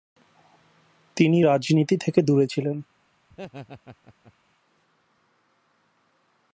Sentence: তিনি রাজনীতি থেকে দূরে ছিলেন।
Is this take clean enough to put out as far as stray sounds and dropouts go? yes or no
no